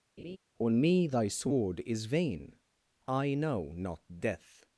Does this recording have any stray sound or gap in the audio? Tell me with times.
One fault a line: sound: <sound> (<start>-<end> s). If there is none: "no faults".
sound: laugh (0.2-0.4 s)